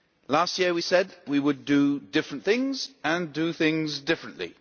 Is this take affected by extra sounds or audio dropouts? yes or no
no